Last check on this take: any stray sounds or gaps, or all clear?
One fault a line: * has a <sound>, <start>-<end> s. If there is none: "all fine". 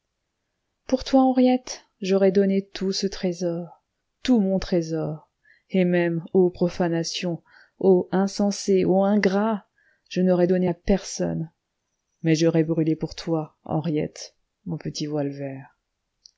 all fine